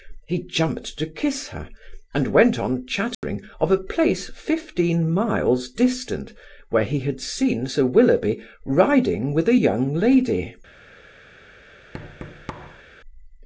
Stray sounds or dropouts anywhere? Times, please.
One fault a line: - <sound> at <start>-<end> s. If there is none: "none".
- dropout at 3.1-3.2 s
- thud at 11.9-12.8 s